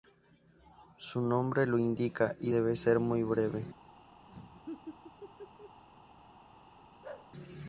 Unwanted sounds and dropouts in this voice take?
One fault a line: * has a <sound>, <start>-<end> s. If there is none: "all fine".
* has a laugh, 4.3-5.8 s
* has a bark, 7.0-7.3 s